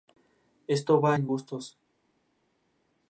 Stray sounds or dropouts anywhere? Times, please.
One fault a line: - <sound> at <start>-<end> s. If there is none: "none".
none